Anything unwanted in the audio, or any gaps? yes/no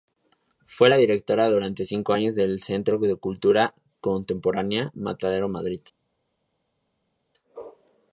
no